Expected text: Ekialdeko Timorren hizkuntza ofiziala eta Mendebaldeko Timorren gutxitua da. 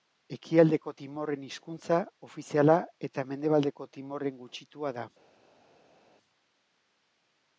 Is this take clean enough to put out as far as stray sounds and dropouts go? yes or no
yes